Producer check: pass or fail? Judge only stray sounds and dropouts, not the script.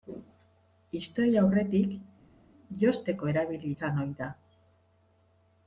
pass